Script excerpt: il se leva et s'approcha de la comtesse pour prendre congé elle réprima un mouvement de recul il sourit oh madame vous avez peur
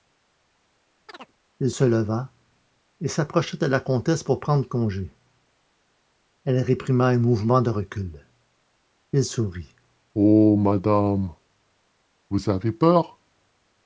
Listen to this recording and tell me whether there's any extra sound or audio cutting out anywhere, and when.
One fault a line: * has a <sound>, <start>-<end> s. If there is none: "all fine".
* has a chirp, 1.1-1.3 s